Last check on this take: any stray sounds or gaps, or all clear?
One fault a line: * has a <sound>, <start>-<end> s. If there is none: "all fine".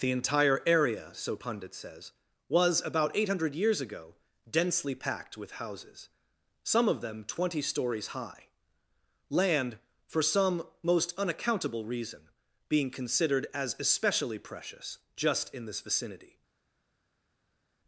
all fine